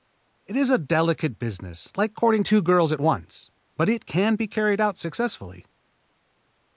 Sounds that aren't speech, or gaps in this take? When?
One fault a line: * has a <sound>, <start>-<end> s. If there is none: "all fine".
all fine